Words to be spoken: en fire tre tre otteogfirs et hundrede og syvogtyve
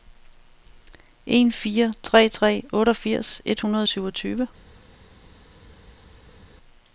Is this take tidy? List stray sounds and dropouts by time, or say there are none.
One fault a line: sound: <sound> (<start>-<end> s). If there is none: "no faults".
no faults